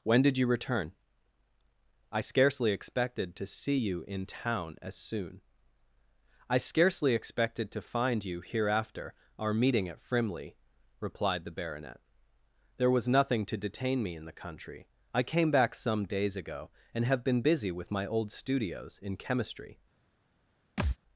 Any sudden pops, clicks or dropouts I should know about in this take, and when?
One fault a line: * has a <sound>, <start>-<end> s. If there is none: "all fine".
* has a thud, 20.8-21.0 s